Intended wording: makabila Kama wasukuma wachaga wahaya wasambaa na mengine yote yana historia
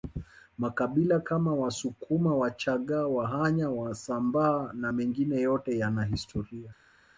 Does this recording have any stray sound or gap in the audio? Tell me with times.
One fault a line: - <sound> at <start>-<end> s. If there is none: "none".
none